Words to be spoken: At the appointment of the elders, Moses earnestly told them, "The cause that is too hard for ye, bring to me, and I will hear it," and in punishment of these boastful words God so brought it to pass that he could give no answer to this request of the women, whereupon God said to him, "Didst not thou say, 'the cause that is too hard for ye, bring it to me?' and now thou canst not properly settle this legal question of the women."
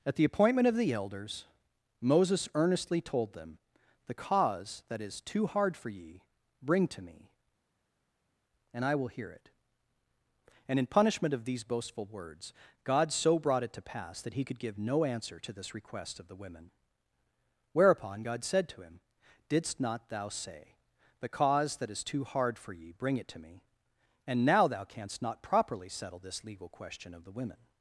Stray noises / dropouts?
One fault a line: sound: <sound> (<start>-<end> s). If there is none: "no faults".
no faults